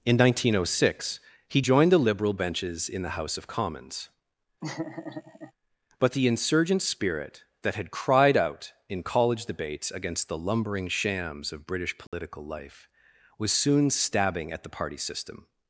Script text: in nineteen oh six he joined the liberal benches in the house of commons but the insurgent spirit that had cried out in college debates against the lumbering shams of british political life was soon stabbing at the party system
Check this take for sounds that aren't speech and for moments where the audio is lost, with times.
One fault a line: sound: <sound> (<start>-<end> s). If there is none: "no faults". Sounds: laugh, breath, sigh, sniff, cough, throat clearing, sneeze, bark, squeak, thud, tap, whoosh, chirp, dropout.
sound: laugh (4.6-5.5 s)
sound: dropout (12.1-12.1 s)